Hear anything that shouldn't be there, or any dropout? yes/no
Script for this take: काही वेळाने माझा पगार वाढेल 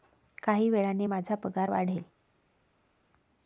no